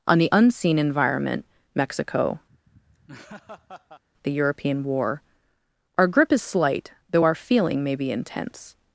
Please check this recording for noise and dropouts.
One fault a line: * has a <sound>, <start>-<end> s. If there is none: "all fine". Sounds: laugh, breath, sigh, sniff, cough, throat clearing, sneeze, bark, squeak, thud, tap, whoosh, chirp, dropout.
* has a laugh, 2.5-4.0 s